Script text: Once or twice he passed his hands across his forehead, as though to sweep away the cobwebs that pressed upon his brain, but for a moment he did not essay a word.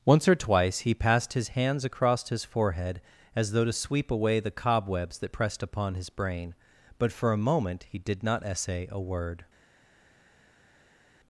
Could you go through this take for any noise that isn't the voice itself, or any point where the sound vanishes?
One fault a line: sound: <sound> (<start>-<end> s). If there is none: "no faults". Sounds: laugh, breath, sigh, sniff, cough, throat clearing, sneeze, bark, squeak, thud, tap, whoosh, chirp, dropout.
no faults